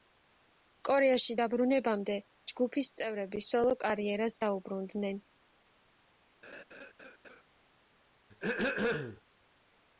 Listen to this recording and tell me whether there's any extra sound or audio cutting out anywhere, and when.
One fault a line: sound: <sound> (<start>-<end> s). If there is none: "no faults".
sound: laugh (6.4-7.4 s)
sound: throat clearing (8.3-9.2 s)